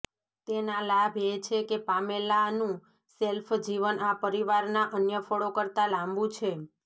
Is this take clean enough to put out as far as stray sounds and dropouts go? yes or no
yes